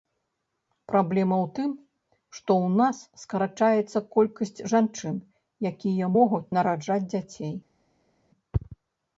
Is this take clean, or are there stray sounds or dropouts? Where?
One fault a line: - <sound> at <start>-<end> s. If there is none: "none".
none